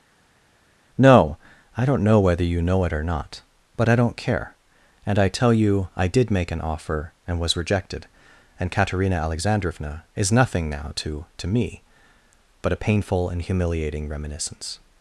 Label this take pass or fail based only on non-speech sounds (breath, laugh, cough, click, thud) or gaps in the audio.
pass